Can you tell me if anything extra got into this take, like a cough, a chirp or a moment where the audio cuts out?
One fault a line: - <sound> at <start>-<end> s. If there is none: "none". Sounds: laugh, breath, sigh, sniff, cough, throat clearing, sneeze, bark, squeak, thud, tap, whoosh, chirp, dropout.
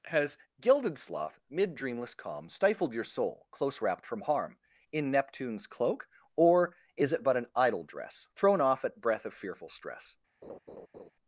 - laugh at 10.4-11.1 s